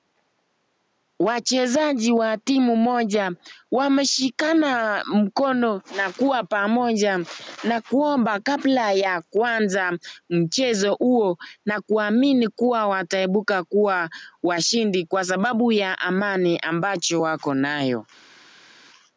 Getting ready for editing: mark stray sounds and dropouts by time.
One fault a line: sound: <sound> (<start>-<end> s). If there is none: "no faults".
no faults